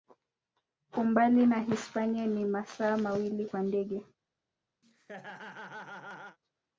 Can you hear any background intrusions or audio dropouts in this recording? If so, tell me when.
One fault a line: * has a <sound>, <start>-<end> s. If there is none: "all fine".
* has a laugh, 4.8-6.4 s